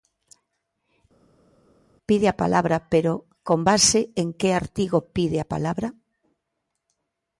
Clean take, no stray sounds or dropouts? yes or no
yes